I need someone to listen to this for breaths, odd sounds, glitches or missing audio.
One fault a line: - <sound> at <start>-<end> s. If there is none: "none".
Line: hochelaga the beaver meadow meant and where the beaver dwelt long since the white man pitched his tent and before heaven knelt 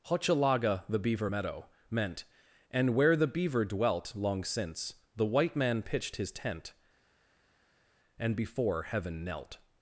none